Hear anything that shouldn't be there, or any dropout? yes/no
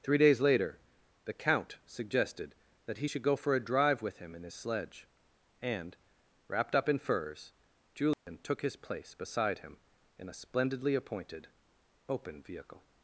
yes